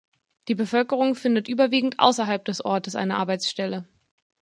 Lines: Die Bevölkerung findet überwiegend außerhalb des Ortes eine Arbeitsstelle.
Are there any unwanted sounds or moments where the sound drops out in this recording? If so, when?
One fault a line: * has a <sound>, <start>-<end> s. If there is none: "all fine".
all fine